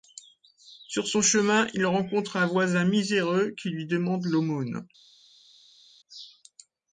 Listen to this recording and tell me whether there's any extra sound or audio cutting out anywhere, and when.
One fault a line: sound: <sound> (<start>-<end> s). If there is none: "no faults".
no faults